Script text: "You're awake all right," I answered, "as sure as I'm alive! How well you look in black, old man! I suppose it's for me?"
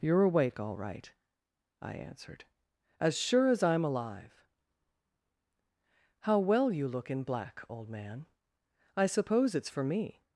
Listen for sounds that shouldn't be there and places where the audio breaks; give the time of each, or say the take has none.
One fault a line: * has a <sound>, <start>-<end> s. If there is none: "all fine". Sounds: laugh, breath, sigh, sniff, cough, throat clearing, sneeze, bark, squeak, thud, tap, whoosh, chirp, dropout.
all fine